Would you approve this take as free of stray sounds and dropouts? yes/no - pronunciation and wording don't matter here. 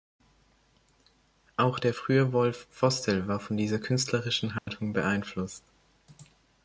no